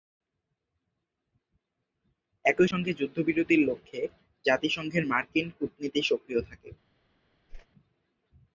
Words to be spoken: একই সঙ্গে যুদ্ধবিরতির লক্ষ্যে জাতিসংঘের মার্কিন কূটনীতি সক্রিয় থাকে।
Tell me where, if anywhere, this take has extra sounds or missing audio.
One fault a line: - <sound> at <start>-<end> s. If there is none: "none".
- whoosh at 7.5-7.7 s